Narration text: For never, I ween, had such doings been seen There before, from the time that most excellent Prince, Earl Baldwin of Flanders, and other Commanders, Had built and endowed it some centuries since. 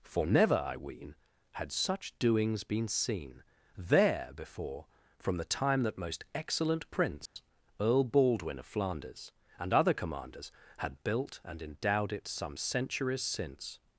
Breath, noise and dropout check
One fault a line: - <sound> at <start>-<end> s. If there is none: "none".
- dropout at 7.3-7.4 s